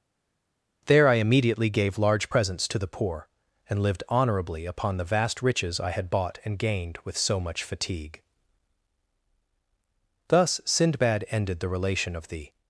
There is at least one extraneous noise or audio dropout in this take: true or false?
false